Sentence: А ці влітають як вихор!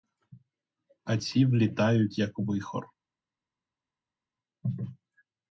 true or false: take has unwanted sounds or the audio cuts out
false